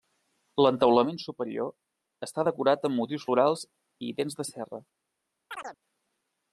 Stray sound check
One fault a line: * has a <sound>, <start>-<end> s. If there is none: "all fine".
* has a chirp, 5.5-5.8 s